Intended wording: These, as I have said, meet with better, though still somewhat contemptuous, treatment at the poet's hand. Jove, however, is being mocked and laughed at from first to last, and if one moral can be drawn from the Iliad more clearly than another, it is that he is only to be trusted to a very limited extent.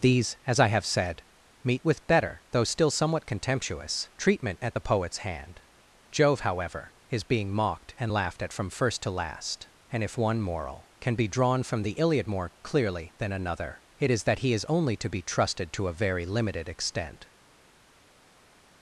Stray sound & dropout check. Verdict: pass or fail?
pass